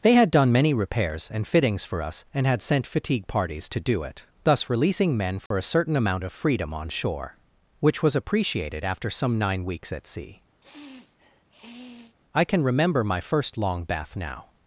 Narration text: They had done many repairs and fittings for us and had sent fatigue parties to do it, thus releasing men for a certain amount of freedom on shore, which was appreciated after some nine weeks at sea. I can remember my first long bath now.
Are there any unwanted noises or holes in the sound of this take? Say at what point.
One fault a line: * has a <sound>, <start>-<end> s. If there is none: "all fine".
* has a dropout, 5.5-5.5 s
* has a sniff, 10.6-12.2 s